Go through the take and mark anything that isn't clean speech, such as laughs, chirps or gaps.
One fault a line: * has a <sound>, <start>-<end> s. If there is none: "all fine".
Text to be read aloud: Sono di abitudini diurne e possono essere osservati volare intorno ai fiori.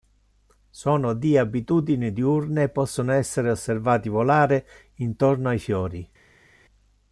all fine